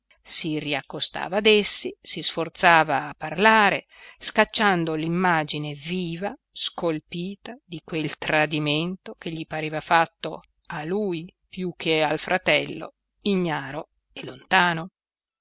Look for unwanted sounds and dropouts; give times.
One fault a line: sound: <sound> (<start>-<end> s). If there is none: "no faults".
no faults